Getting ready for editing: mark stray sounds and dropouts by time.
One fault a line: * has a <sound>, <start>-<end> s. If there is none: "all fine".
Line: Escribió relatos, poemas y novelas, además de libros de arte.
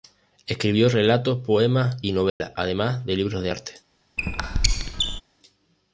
* has a dropout, 2.3-2.4 s
* has a squeak, 4.2-5.2 s